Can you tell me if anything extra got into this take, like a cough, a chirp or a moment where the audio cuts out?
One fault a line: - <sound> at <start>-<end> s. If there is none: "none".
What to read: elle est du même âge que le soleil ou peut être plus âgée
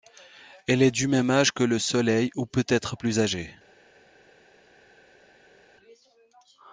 none